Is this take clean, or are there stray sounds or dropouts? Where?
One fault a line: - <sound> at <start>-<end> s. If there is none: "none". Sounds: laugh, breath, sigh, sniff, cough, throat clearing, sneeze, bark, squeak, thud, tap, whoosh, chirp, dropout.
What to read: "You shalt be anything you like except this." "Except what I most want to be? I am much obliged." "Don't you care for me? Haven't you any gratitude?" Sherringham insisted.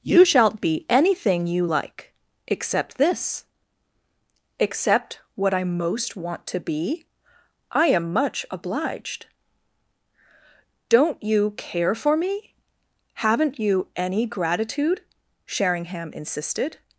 none